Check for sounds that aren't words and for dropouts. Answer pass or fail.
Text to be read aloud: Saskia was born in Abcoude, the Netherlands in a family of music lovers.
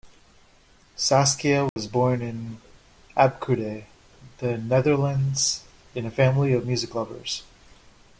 fail